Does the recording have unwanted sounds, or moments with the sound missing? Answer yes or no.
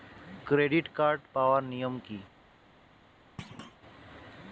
yes